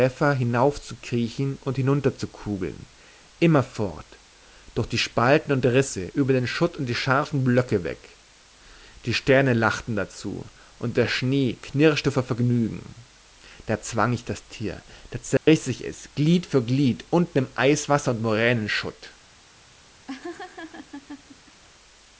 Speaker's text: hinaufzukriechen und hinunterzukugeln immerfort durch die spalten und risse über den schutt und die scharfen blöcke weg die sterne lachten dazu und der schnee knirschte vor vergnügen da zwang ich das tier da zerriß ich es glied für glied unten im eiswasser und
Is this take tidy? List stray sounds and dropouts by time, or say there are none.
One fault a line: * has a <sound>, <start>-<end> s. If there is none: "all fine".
* has a dropout, 15.4-15.5 s
* has a laugh, 20.1-21.6 s